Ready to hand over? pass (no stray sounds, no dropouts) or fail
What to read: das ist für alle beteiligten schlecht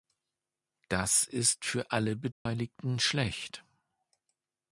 fail